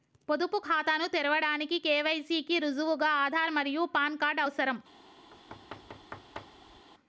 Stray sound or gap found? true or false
true